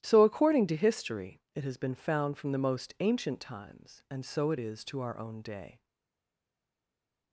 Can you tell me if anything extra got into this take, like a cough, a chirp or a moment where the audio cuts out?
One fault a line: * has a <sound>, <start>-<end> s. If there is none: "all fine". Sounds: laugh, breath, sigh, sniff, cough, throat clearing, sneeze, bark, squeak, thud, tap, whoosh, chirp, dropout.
all fine